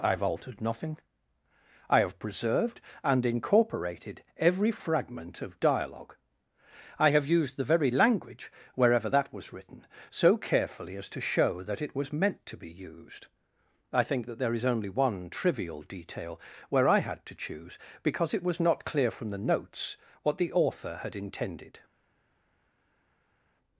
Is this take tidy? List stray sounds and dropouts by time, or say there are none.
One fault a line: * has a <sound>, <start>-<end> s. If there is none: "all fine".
all fine